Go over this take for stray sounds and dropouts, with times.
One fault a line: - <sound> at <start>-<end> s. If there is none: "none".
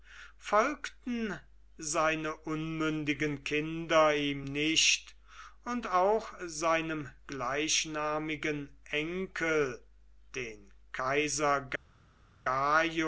none